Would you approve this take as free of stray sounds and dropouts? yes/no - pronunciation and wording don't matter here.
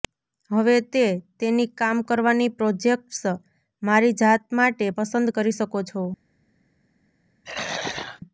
no